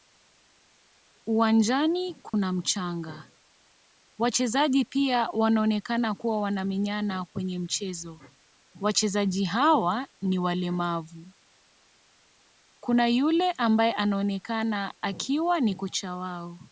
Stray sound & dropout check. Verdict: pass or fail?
fail